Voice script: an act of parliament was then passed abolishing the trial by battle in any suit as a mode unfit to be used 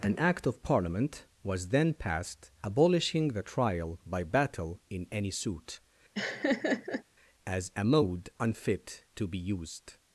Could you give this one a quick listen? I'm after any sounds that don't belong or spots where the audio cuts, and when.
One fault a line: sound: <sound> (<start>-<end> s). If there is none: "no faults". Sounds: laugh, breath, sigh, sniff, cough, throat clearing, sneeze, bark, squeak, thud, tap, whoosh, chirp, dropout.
sound: laugh (6.1-7.0 s)